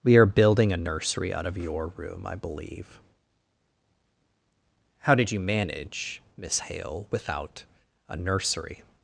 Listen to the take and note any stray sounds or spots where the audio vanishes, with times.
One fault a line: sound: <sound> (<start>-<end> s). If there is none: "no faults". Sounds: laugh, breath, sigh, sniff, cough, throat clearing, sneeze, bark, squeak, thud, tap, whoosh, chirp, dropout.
no faults